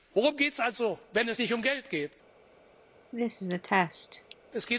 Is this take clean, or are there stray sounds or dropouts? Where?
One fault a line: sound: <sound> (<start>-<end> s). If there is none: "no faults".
sound: cough (3.1-4.3 s)